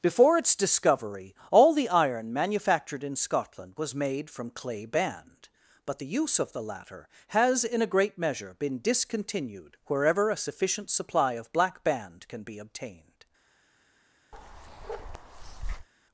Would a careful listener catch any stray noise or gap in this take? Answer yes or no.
yes